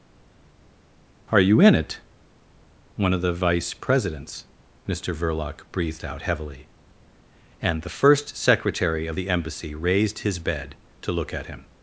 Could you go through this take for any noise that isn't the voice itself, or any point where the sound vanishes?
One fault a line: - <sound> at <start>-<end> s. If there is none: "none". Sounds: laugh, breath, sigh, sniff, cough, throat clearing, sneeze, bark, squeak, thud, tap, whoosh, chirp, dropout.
none